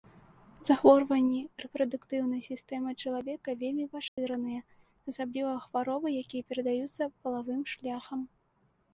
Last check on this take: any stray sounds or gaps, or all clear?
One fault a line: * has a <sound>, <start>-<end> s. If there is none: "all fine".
* has a dropout, 4.1-4.2 s